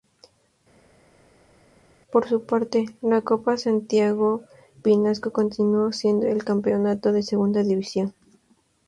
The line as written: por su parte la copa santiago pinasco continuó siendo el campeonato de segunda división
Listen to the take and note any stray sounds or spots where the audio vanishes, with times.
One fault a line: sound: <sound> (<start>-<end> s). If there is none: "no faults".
no faults